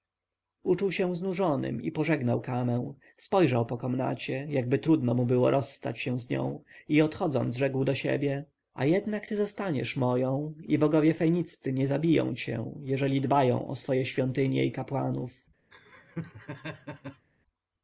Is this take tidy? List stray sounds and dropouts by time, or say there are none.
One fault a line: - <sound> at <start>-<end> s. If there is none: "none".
- laugh at 15.7-17.3 s